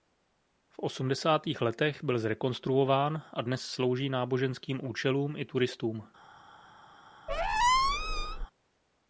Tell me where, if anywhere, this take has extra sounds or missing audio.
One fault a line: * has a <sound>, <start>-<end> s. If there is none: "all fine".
* has a squeak, 7.3-8.5 s